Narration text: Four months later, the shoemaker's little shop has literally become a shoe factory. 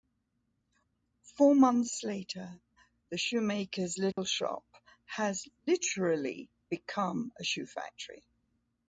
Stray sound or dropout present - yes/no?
yes